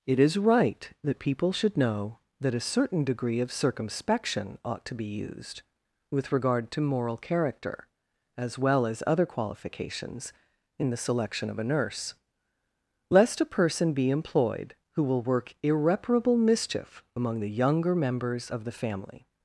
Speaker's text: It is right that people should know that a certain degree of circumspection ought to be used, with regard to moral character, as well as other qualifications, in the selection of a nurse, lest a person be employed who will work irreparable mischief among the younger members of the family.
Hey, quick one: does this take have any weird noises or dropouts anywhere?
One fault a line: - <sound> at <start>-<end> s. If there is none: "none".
none